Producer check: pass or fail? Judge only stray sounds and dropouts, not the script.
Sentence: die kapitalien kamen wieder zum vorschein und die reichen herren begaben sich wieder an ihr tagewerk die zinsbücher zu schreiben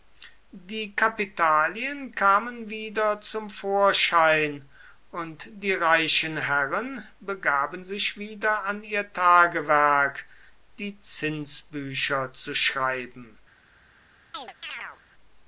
fail